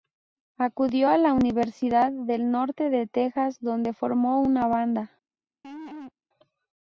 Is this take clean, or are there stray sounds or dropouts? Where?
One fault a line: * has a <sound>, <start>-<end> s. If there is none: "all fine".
* has a laugh, 5.6-6.1 s